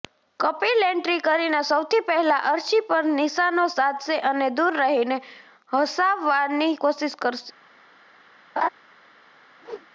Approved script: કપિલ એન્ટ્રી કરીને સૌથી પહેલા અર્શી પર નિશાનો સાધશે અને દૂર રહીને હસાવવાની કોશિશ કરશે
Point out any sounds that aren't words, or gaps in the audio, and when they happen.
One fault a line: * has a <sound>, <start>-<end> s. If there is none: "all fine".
* has a laugh, 8.6-8.7 s
* has a whoosh, 9.6-9.9 s